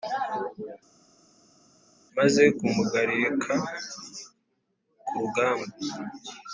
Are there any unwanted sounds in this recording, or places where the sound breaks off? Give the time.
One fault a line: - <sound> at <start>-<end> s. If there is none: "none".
none